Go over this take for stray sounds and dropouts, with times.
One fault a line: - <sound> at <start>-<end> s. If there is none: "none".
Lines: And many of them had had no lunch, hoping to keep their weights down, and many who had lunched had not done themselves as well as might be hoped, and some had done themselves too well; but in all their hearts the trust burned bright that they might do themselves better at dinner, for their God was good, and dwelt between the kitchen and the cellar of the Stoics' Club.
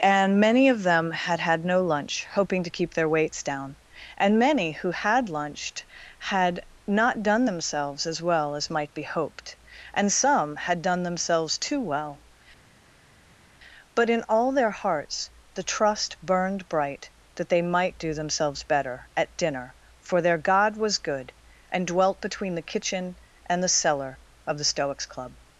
none